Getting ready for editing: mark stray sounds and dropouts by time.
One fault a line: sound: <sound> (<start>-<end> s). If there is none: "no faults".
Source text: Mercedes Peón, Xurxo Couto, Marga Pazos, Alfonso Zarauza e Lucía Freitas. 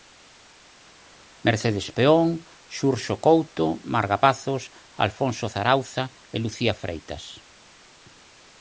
no faults